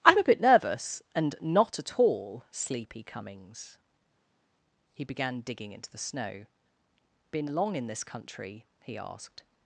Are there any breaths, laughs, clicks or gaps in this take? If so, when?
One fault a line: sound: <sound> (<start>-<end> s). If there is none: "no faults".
no faults